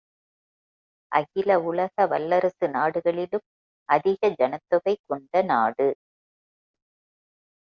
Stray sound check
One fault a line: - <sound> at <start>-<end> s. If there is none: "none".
none